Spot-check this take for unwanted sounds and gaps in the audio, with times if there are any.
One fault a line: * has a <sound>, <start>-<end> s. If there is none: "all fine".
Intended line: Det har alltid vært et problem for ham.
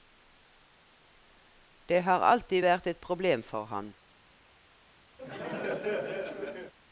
* has a laugh, 5.2-6.7 s